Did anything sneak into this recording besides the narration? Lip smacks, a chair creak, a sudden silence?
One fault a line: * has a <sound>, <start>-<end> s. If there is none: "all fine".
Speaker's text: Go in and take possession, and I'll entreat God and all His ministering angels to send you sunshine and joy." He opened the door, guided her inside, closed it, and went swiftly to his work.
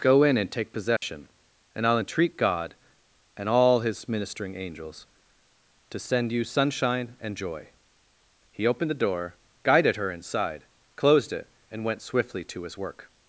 * has a dropout, 1.0-1.0 s